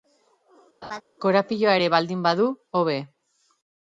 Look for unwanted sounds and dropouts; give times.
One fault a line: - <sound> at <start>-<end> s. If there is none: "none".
- laugh at 0.8-1.0 s